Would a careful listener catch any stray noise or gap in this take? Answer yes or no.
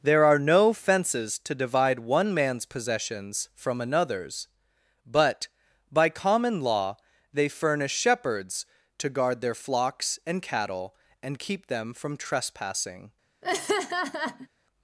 yes